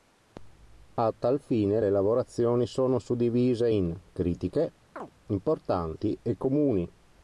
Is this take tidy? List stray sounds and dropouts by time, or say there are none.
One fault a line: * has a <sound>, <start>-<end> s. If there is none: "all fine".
* has a chirp, 5.0-5.1 s